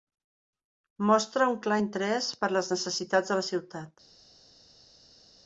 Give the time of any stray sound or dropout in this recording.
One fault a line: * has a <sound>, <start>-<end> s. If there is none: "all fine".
all fine